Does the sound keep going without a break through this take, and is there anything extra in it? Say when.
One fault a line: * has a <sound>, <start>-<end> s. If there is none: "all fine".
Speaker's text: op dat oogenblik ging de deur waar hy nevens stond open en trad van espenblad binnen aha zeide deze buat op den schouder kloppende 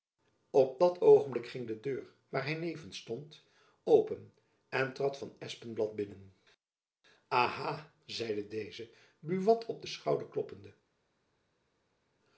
all fine